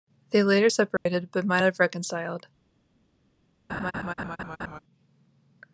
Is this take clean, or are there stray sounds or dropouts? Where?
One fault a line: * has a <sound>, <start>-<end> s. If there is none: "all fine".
* has a dropout, 1.0-1.1 s
* has a laugh, 3.7-4.8 s